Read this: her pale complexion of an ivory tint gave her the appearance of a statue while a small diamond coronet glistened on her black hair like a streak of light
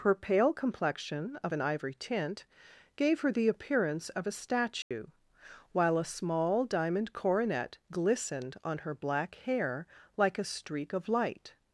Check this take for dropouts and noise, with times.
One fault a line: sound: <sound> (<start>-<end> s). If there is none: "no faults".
sound: dropout (4.8-4.9 s)